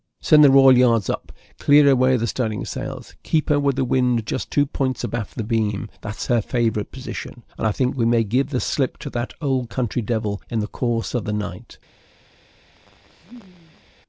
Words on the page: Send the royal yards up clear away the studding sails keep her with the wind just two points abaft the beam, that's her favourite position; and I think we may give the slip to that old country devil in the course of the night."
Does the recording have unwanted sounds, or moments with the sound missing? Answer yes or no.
yes